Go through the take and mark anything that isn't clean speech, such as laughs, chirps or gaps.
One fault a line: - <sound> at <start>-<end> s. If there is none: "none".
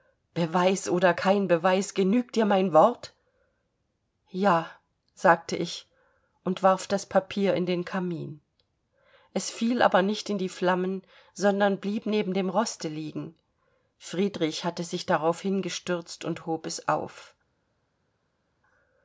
none